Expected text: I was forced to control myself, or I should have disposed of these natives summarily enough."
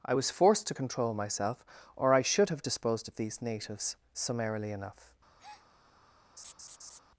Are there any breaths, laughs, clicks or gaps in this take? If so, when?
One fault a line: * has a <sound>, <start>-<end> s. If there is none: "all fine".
* has a breath, 5.4-5.7 s
* has a laugh, 6.4-7.0 s